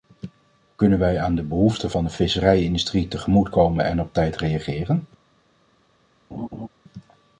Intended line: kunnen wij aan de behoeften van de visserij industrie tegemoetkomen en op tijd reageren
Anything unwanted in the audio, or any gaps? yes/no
yes